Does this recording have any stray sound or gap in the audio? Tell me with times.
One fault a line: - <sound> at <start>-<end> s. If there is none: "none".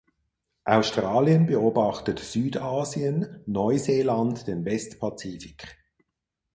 none